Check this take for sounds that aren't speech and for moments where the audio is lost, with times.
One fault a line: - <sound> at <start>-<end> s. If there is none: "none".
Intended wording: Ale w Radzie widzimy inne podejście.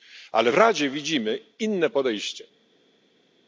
none